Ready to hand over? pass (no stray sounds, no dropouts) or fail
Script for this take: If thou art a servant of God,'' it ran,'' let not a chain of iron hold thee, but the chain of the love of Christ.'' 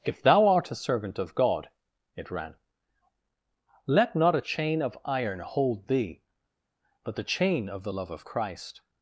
pass